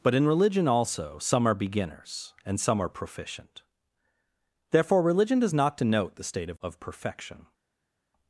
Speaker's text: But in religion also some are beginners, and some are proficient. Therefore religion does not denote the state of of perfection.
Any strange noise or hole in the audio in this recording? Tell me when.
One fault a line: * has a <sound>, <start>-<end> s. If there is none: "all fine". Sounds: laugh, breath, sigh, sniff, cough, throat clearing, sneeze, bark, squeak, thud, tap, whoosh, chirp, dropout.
all fine